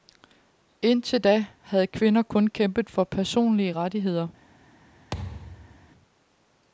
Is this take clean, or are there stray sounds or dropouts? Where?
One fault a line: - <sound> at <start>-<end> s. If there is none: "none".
- thud at 5.1-5.9 s